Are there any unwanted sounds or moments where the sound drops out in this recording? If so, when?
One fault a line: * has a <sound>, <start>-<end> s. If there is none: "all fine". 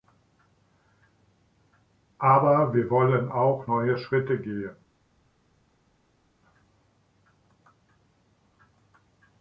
all fine